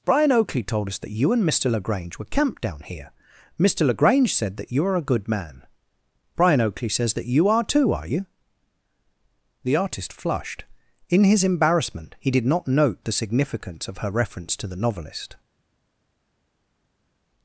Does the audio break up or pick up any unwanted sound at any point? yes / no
no